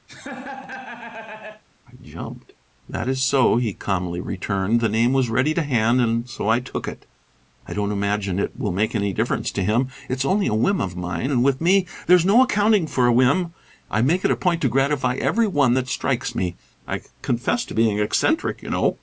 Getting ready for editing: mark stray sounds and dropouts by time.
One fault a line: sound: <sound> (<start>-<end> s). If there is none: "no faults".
sound: laugh (0.1-1.6 s)